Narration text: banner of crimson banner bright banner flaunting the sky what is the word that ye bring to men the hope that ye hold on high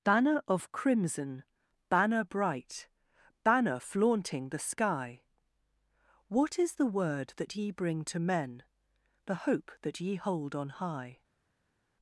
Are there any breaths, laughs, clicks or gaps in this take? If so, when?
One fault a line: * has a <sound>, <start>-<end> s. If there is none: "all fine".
all fine